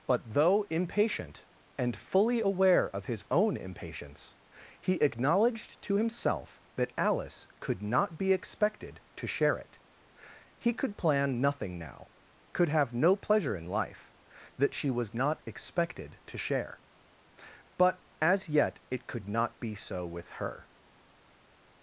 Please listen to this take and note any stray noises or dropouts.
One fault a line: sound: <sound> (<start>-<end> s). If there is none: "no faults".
no faults